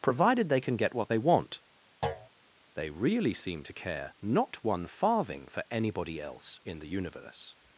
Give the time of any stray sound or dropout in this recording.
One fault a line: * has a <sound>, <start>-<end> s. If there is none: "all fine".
* has a thud, 2.0-2.3 s